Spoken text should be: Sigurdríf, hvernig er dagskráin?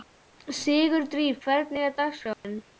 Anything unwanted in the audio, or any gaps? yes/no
yes